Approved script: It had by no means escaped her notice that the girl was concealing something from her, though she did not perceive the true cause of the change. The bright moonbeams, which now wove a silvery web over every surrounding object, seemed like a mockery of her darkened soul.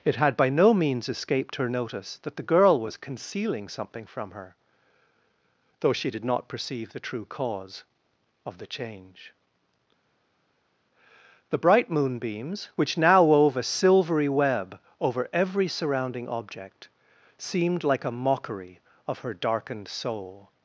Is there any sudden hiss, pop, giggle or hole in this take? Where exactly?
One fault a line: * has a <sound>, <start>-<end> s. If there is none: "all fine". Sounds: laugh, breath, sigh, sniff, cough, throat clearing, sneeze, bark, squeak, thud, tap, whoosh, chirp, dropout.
all fine